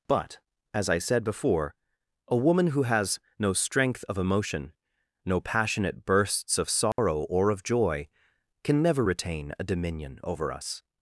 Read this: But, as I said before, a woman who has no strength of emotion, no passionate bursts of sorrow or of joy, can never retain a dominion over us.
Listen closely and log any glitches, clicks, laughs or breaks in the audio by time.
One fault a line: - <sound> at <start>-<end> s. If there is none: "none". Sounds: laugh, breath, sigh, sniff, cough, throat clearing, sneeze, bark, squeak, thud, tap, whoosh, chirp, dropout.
- dropout at 6.9-7.0 s